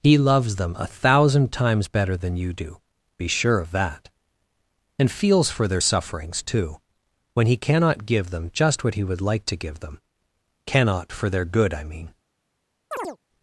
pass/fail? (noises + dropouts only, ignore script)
fail